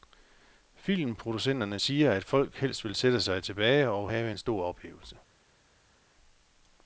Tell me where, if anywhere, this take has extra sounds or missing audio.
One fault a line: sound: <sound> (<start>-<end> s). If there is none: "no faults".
no faults